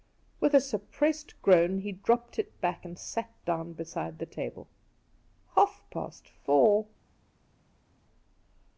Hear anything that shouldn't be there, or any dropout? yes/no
no